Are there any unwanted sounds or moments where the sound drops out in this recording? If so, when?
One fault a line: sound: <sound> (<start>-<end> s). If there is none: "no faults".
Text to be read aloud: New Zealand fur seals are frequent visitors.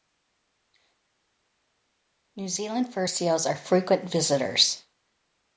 no faults